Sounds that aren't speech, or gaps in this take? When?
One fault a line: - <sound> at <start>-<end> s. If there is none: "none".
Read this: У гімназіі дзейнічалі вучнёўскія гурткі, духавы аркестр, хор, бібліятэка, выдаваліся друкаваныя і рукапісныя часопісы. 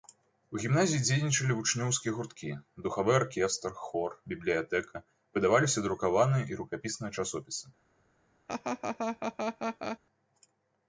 - laugh at 8.5-10.0 s